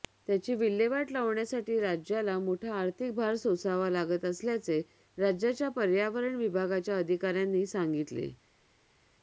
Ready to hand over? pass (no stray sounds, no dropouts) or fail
pass